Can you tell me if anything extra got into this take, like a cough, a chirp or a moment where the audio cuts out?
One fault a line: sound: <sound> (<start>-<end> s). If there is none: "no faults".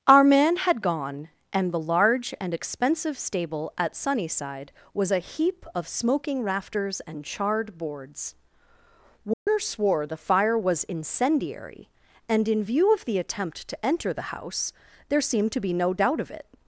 sound: dropout (9.3-9.5 s)